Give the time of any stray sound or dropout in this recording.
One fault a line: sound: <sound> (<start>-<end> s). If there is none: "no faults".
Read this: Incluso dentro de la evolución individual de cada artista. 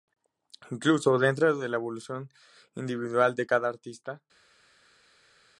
no faults